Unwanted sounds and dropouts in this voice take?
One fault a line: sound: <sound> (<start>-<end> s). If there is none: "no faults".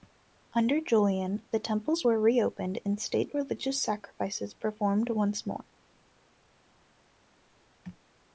no faults